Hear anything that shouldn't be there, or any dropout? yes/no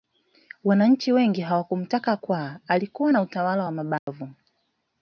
yes